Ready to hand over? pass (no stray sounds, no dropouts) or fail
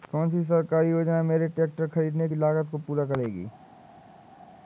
pass